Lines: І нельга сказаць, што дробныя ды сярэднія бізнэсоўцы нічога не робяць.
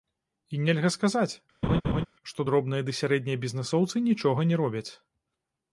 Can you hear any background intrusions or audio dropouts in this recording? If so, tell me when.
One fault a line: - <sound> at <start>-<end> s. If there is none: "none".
- laugh at 1.6-2.1 s